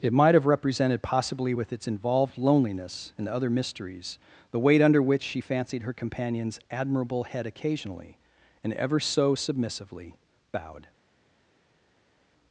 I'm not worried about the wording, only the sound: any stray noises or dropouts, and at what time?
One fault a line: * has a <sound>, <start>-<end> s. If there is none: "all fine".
all fine